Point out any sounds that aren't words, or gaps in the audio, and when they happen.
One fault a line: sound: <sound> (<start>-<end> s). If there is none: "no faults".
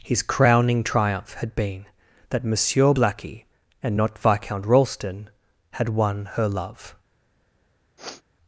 sound: sniff (8.0-8.2 s)